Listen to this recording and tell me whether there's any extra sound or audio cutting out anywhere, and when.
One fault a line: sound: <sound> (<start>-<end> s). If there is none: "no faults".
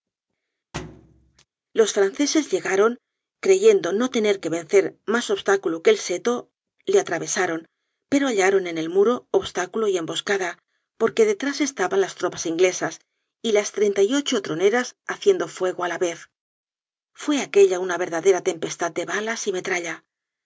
sound: thud (0.7-1.5 s)